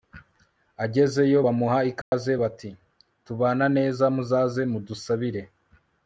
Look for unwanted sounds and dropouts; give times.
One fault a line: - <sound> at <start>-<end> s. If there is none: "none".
- dropout at 2.0-2.1 s